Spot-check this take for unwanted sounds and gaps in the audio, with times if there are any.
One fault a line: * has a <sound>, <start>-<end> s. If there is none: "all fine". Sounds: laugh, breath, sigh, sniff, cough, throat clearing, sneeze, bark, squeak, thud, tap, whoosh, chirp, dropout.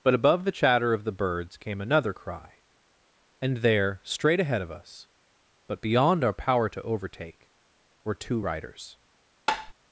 * has a tap, 9.5-9.7 s